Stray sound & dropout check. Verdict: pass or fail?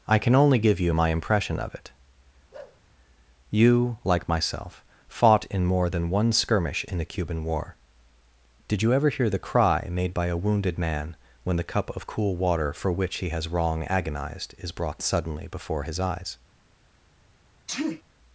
fail